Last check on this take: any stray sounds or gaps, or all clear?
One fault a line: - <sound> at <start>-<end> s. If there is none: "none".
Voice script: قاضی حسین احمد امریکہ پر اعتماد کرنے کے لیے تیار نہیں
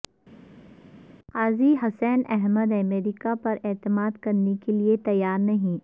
none